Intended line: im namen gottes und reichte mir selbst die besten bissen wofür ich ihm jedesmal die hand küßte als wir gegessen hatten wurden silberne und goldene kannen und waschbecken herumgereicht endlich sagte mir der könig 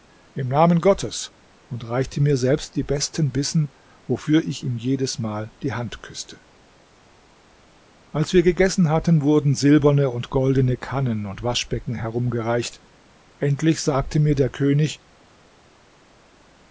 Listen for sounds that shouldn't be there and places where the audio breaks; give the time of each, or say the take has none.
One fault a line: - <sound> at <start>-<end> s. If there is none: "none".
none